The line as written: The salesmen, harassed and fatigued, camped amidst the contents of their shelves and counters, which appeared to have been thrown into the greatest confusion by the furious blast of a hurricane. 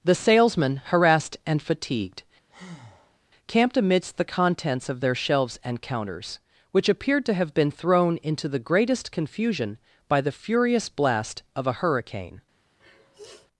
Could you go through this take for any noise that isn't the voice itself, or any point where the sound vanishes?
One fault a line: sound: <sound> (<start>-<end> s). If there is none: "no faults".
sound: breath (2.5-3.2 s)
sound: sniff (12.8-13.5 s)